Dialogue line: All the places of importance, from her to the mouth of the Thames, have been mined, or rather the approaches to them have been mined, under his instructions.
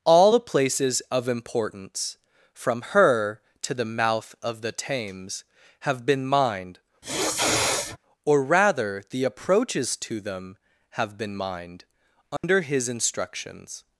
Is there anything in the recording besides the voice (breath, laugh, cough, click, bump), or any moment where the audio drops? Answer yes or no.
yes